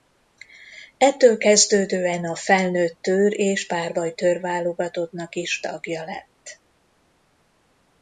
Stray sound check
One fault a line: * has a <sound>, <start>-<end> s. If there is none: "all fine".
all fine